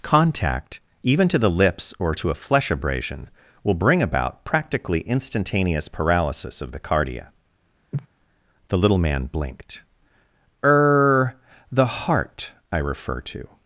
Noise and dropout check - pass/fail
fail